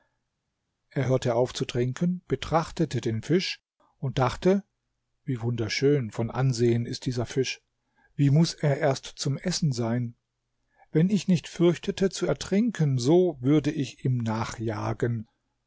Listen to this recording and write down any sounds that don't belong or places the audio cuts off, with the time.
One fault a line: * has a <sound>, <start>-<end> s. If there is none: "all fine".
all fine